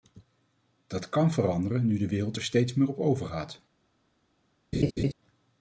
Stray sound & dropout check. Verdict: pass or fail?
fail